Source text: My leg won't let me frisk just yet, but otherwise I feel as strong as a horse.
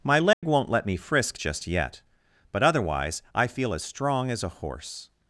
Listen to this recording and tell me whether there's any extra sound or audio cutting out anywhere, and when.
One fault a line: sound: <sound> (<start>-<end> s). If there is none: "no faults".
sound: dropout (0.3-0.4 s)